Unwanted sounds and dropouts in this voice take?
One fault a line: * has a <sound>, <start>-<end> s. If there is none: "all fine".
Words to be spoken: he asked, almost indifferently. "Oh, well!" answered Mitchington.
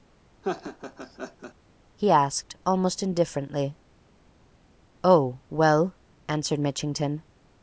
* has a laugh, 0.4-1.5 s